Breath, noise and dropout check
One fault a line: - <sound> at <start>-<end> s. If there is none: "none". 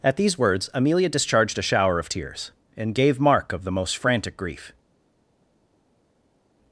none